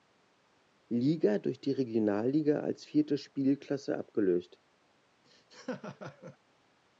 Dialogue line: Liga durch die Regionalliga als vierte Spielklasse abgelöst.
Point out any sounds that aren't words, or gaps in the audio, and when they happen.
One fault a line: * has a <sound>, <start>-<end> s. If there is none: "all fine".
* has a laugh, 5.2-6.4 s